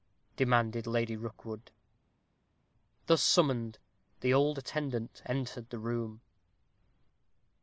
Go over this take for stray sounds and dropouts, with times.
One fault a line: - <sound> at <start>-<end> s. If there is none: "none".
none